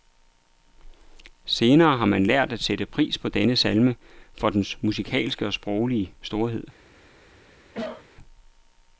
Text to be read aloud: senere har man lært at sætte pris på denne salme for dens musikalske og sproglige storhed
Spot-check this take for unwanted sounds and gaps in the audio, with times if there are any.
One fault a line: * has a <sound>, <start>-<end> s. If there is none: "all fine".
* has a cough, 7.7-8.1 s